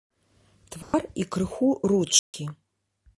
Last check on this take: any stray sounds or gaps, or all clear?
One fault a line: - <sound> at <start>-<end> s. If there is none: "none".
- dropout at 0.8-0.9 s
- dropout at 2.2-2.3 s